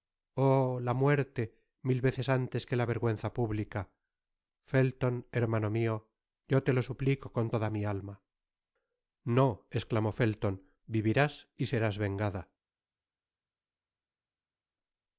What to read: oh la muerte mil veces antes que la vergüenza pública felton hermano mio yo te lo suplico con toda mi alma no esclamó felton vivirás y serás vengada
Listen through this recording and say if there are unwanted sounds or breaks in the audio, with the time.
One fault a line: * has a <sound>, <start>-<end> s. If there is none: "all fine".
all fine